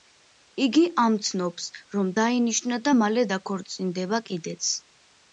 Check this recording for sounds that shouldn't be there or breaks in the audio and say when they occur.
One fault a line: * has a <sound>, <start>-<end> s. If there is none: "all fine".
all fine